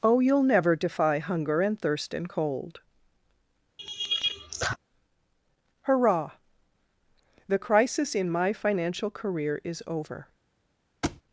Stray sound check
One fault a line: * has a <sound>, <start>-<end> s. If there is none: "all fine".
* has a laugh, 3.8-4.8 s
* has a thud, 11.0-11.2 s